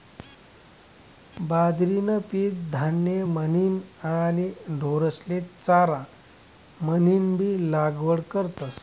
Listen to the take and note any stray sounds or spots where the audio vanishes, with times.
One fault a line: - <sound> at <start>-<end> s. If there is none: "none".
none